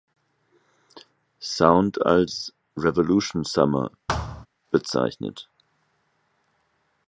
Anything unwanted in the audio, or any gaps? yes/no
yes